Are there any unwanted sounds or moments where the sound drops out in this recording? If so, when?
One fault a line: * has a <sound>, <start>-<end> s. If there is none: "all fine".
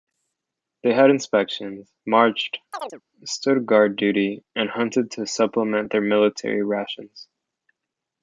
* has a chirp, 2.7-3.0 s